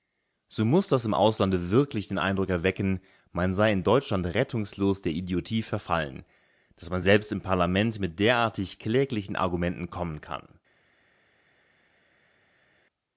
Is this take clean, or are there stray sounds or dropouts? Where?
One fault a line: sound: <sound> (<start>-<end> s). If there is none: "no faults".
no faults